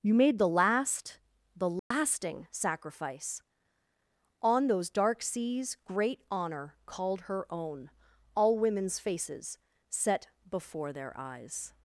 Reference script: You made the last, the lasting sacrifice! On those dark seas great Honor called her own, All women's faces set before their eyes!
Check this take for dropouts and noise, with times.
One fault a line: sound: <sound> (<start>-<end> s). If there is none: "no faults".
sound: dropout (1.8-1.9 s)